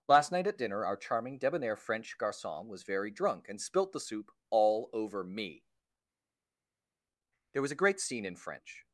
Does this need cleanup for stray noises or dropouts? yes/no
no